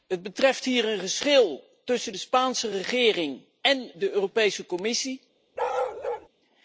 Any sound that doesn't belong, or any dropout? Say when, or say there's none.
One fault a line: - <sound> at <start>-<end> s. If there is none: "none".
- bark at 5.6-6.3 s